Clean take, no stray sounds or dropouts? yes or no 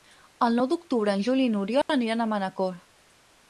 no